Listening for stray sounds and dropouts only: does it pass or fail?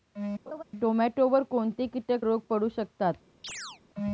fail